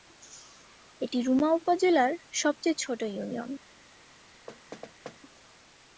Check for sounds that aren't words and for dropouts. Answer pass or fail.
fail